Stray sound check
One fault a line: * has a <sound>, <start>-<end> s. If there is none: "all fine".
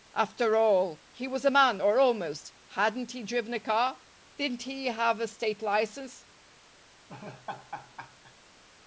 * has a laugh, 7.1-8.3 s